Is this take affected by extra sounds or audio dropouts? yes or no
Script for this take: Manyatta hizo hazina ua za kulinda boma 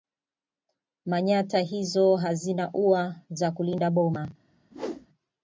yes